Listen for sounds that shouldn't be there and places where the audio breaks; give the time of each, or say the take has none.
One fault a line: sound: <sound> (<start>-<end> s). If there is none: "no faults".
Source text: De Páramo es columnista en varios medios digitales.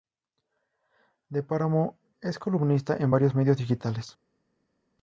no faults